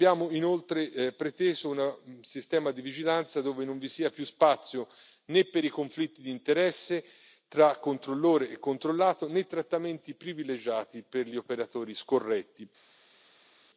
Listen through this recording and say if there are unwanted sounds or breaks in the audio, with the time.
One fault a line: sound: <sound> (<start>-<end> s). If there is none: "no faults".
no faults